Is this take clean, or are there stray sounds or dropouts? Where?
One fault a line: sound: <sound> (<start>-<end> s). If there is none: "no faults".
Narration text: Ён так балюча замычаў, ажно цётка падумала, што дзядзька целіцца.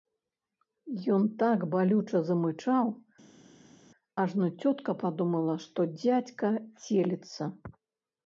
no faults